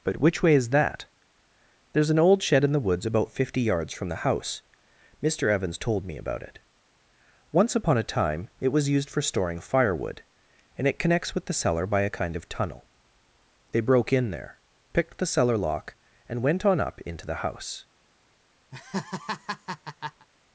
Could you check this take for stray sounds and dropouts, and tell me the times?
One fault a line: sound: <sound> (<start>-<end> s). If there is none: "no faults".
sound: laugh (18.7-20.3 s)